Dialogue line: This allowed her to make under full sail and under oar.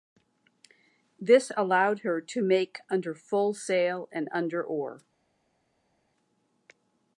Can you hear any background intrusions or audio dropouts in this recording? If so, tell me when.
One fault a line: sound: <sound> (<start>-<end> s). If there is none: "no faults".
no faults